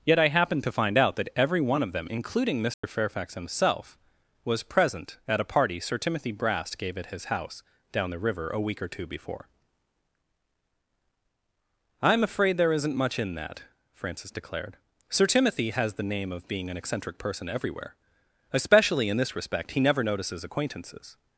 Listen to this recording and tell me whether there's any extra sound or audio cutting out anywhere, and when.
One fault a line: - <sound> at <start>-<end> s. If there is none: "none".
- dropout at 2.7-2.8 s